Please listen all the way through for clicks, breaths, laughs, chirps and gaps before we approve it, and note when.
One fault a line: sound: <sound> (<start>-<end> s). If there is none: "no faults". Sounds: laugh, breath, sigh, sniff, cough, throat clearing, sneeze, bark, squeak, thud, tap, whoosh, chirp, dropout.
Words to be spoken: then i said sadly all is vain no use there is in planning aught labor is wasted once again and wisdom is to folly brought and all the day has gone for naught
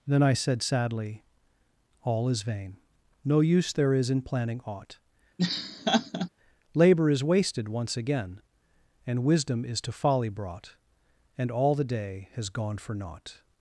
sound: laugh (5.4-6.3 s)